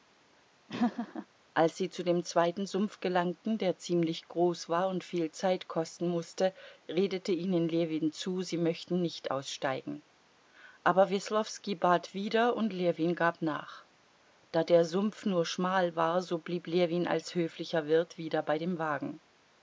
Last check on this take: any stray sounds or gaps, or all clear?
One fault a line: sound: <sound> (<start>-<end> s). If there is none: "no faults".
sound: laugh (0.7-1.3 s)